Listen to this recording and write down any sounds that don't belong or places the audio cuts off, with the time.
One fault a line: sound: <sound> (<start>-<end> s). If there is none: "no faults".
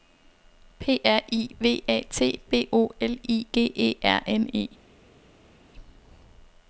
no faults